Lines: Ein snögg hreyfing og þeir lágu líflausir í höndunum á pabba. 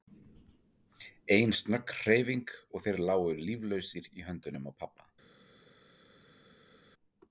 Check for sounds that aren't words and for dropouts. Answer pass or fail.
pass